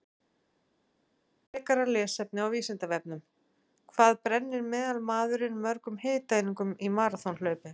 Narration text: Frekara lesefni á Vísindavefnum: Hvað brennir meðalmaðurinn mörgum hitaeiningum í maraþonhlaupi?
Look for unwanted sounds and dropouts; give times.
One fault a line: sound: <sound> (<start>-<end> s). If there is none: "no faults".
no faults